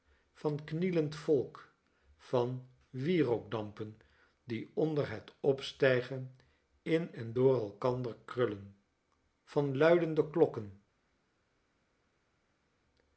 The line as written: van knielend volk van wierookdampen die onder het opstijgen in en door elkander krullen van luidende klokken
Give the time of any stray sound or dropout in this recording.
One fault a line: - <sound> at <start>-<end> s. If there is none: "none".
none